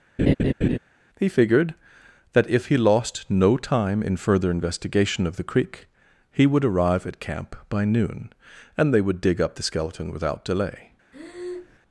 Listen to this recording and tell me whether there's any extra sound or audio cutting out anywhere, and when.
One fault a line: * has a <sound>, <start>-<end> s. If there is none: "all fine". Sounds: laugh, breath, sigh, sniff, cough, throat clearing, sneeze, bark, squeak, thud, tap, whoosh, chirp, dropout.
* has a laugh, 0.2-0.8 s
* has a breath, 11.1-11.8 s